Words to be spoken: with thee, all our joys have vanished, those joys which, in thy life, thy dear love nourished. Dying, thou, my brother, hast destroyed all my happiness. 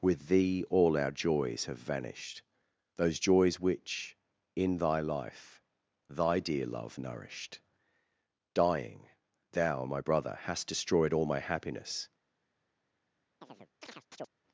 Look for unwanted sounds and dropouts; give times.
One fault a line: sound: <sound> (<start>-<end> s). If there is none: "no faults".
sound: chirp (13.4-14.3 s)